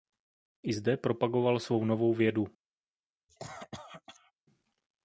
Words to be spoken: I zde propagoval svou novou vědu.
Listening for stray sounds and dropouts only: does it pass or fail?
fail